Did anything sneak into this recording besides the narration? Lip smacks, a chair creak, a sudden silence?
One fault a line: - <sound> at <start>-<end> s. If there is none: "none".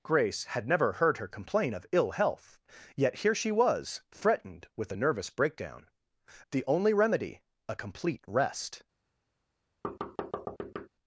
- thud at 9.8-10.9 s